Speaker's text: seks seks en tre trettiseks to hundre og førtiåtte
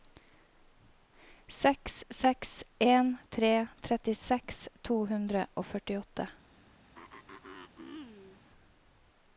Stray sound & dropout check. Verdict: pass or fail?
fail